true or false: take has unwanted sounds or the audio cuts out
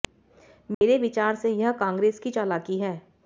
true